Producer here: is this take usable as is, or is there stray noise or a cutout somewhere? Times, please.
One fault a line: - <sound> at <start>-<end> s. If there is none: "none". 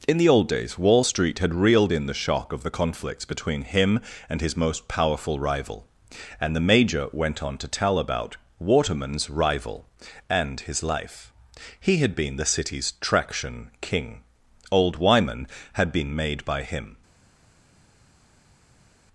none